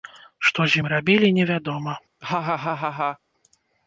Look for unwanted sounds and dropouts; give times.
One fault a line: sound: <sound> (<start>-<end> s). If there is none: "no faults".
sound: laugh (2.2-3.2 s)